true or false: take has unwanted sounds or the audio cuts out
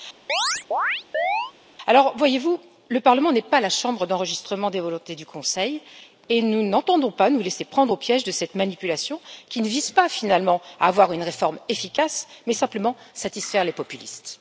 true